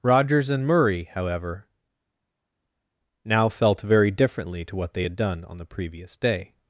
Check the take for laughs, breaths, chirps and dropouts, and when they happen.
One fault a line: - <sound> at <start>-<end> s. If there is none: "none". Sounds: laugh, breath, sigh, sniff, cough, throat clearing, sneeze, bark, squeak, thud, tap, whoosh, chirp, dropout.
none